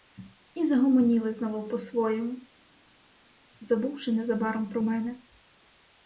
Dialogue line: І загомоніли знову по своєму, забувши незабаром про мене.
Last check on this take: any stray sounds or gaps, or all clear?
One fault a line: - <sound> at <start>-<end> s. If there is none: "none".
none